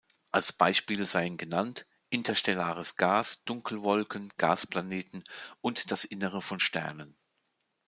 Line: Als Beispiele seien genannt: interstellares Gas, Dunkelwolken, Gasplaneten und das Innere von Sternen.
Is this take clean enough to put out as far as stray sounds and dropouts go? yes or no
yes